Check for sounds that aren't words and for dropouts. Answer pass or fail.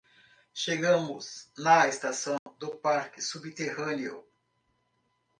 fail